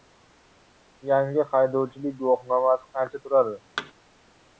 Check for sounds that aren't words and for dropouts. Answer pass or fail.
fail